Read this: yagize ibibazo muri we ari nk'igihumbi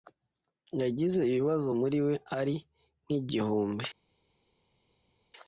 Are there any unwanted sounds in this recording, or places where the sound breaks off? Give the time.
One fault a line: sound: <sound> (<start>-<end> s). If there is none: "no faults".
no faults